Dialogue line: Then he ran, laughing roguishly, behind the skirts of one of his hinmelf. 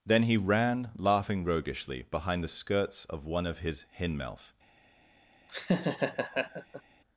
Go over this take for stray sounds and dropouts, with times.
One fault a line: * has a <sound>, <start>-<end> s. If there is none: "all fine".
* has a laugh, 5.5-6.8 s